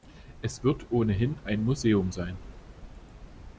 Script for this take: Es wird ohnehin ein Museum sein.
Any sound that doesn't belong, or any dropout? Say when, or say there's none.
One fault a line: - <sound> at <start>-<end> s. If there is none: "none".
none